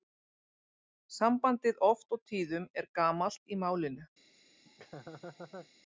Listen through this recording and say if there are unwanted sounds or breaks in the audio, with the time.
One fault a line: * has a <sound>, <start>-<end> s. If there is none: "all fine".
* has a laugh, 4.6-5.7 s